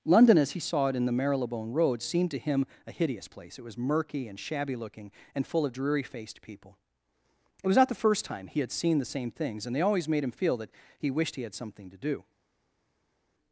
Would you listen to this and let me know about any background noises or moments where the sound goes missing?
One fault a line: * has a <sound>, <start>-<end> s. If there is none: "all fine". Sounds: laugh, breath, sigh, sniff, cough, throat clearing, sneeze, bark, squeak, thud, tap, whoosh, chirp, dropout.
all fine